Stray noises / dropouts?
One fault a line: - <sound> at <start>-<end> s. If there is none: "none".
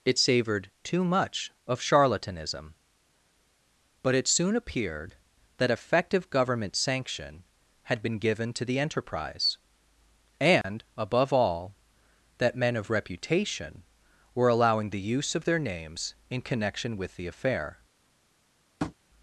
- dropout at 10.6-10.6 s
- tap at 18.8-18.9 s